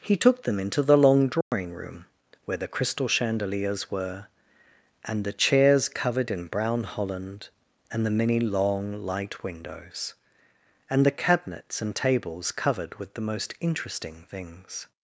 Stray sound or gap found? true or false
true